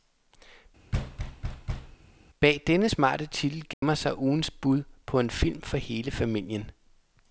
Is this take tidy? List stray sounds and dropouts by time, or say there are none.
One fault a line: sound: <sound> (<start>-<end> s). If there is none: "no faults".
sound: thud (0.9-2.0 s)
sound: dropout (3.7-3.8 s)